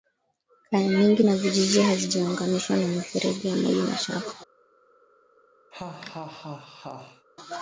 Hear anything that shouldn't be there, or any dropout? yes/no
yes